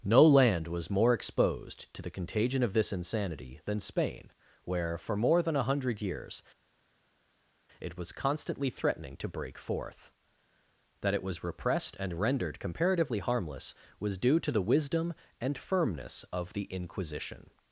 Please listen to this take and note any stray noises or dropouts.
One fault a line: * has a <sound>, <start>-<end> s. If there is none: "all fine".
all fine